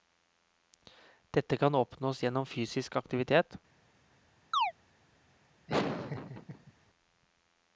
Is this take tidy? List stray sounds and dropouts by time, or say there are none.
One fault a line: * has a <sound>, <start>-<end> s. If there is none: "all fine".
* has a chirp, 4.5-4.7 s
* has a laugh, 5.7-6.7 s